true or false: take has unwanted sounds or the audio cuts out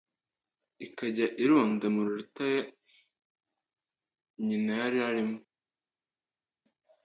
false